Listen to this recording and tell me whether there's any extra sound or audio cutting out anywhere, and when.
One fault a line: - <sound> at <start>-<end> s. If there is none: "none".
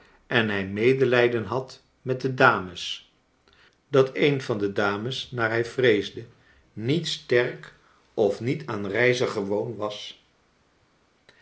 none